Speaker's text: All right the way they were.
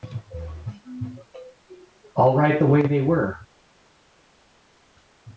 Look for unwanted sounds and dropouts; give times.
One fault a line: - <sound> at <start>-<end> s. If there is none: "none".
none